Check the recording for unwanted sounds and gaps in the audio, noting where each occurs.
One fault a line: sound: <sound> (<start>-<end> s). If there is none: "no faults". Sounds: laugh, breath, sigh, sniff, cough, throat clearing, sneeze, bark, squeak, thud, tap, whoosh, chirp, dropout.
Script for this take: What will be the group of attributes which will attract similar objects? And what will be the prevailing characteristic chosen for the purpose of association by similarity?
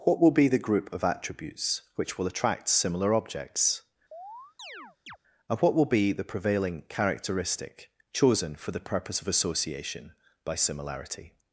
sound: chirp (4.1-5.2 s)